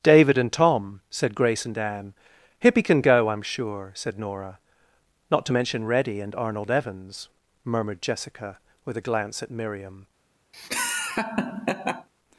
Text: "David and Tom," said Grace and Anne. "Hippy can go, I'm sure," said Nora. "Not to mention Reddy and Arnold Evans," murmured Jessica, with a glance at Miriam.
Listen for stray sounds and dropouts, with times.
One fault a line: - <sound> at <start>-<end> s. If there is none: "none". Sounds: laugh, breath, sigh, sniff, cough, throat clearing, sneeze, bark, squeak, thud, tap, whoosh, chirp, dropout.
- laugh at 10.5-12.1 s